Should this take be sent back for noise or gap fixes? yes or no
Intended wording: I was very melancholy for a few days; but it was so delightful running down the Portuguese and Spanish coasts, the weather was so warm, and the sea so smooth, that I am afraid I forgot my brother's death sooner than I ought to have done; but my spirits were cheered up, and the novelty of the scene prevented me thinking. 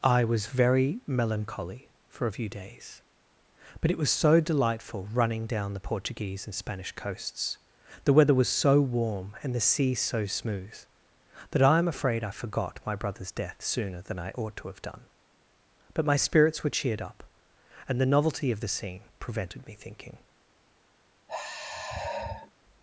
yes